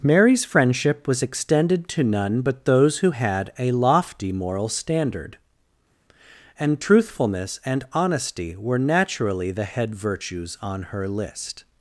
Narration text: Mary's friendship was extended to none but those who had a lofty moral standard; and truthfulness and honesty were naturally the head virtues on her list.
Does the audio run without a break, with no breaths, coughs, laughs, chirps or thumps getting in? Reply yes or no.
yes